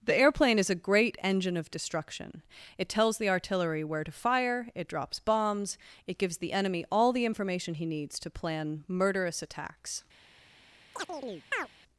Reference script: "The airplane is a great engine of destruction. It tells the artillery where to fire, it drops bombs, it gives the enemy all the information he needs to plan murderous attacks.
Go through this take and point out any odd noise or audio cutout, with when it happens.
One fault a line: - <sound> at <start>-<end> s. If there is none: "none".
- chirp at 10.9-11.7 s